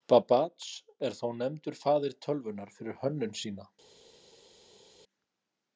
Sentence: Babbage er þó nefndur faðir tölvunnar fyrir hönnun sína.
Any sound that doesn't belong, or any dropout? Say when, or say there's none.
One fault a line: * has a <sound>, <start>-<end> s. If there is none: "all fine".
all fine